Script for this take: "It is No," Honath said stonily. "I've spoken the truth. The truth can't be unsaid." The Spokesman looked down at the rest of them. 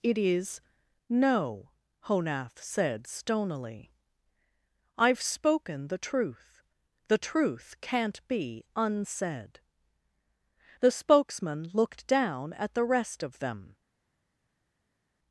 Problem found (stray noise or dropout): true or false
false